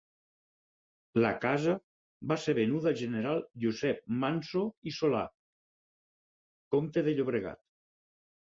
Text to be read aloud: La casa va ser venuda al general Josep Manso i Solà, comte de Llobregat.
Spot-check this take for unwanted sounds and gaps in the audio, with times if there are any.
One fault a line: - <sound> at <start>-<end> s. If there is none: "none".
none